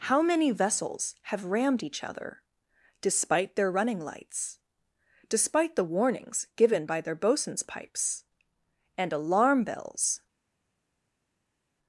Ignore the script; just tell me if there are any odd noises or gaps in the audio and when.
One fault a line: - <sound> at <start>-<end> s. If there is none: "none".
none